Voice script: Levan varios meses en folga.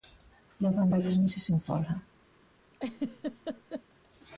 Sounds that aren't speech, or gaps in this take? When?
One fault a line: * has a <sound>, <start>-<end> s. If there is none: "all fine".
* has a laugh, 2.7-3.8 s